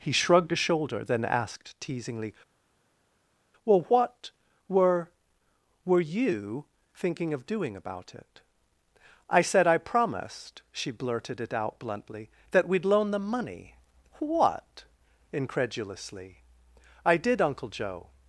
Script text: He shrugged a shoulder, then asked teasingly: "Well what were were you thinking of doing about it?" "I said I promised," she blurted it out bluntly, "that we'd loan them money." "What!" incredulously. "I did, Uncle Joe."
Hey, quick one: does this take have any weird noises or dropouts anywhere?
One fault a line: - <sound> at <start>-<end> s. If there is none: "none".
none